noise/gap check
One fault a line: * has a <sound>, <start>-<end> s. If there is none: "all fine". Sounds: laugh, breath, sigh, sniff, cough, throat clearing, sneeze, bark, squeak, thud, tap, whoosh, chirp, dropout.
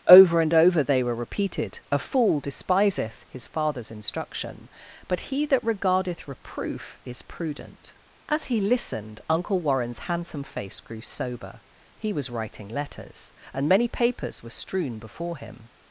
all fine